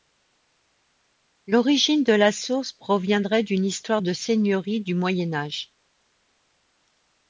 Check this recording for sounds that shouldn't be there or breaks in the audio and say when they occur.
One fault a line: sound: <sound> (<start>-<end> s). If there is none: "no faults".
no faults